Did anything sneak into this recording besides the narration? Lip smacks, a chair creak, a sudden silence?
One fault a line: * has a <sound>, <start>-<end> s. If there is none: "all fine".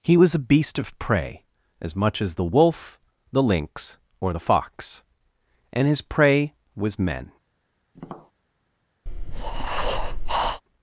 * has a tap, 7.9-8.3 s
* has a breath, 9.1-10.6 s